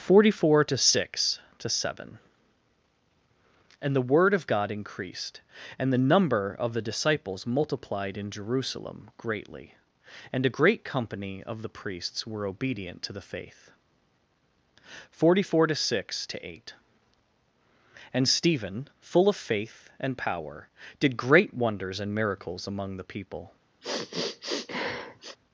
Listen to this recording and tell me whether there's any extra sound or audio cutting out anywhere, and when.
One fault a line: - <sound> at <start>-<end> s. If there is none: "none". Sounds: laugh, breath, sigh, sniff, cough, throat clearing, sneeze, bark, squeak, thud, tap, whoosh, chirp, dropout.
- sniff at 23.8-25.4 s